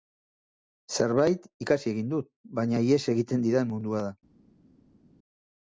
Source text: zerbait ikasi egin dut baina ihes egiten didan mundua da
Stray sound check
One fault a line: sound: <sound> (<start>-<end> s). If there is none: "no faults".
no faults